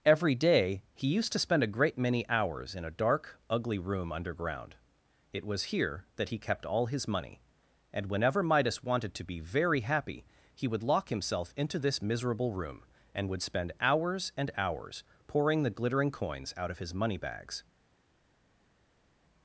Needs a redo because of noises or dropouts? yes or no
no